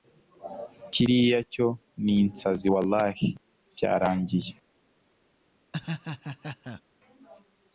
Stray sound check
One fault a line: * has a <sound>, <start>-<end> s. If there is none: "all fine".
* has a laugh, 5.7-6.8 s